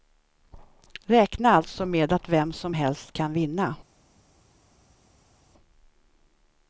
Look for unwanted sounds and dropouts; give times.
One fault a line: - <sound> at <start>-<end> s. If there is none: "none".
none